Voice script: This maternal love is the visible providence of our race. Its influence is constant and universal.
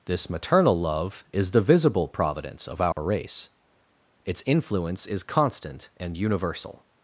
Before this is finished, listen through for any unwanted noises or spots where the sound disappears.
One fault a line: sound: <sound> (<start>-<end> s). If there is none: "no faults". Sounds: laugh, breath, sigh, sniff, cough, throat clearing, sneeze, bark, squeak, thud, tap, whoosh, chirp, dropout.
sound: dropout (2.9-3.0 s)